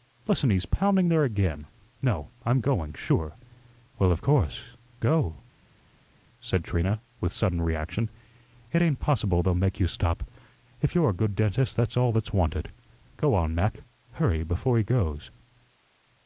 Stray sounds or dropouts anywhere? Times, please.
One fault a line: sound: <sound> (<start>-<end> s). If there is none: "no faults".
no faults